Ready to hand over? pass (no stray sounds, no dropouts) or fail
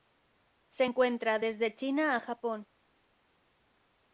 pass